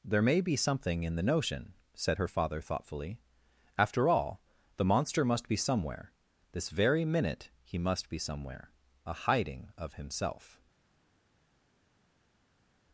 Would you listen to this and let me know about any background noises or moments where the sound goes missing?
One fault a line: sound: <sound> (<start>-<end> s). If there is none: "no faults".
no faults